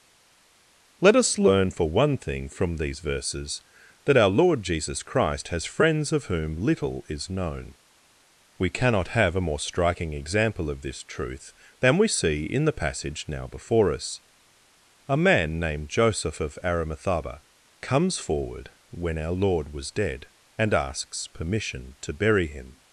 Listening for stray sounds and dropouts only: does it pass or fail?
pass